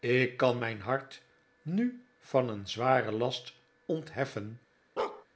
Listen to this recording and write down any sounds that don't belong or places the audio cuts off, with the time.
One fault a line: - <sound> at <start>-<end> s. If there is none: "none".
- bark at 5.0-5.3 s